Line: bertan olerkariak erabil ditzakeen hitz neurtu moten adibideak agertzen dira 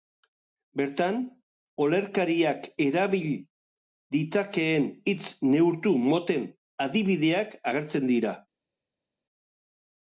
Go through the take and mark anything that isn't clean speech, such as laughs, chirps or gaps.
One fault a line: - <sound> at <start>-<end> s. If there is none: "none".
none